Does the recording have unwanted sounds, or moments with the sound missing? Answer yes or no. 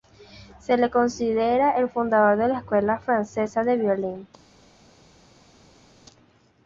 no